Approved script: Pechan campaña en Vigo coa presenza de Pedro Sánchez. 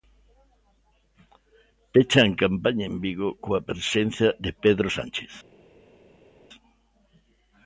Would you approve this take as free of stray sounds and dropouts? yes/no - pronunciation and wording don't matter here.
yes